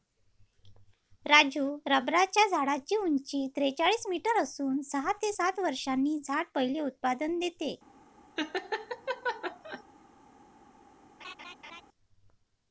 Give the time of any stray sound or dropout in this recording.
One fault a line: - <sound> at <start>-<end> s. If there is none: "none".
- laugh at 8.4-9.8 s
- laugh at 11.2-11.8 s